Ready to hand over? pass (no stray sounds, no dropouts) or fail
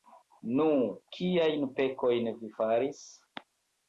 pass